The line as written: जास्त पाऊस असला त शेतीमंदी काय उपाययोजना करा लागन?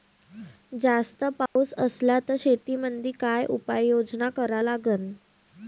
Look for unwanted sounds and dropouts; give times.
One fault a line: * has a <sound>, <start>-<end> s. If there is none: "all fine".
* has a dropout, 1.5-1.6 s